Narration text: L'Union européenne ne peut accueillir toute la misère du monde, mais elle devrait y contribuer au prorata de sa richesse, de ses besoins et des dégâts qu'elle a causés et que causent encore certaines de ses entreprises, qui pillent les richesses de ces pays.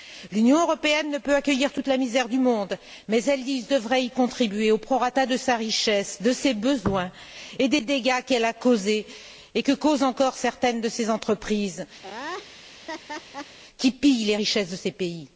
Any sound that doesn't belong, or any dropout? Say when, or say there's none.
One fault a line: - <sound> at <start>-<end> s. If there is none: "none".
- laugh at 12.0-13.6 s